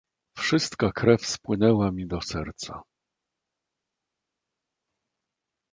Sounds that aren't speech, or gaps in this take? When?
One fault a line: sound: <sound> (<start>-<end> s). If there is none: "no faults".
no faults